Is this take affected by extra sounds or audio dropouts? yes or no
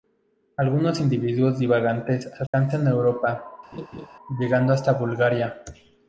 yes